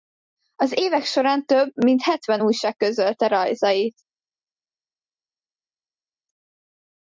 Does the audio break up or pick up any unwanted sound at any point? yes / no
no